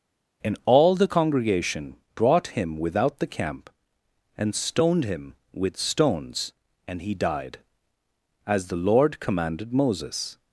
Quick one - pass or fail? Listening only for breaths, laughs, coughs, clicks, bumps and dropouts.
pass